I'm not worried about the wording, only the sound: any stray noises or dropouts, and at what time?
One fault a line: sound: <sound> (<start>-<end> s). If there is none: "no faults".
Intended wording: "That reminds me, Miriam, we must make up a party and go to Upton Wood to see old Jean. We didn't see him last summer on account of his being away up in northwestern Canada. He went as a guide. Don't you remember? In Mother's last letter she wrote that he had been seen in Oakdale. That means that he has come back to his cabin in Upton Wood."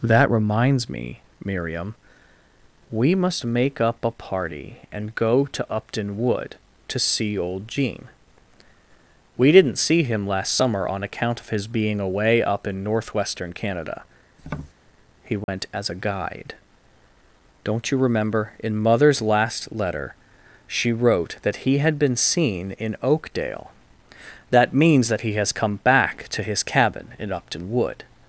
sound: tap (14.4-14.7 s)
sound: dropout (15.4-15.5 s)